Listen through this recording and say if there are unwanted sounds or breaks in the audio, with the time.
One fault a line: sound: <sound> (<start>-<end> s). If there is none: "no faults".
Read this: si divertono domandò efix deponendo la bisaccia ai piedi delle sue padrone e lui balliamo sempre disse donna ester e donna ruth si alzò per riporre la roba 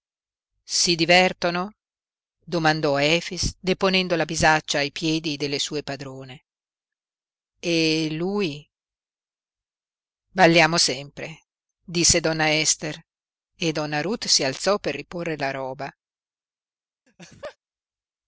sound: laugh (17.1-17.6 s)